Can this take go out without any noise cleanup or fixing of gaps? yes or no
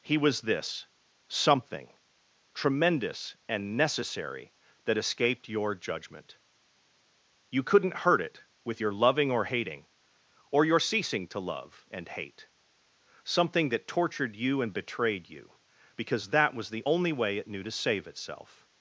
yes